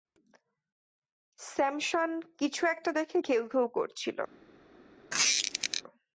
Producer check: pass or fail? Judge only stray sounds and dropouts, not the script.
fail